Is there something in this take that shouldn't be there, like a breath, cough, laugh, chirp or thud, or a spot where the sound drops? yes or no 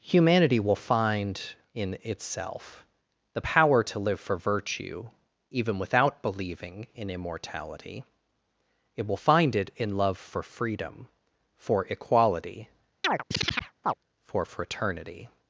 yes